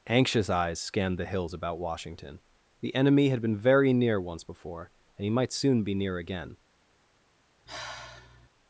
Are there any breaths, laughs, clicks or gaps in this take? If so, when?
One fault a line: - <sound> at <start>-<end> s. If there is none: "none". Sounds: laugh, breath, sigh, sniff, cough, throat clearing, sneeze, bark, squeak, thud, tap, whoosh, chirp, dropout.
- sigh at 7.7-8.5 s